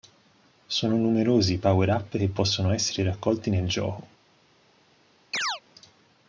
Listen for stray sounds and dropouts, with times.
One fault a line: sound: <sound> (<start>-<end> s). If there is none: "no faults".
sound: chirp (5.3-5.6 s)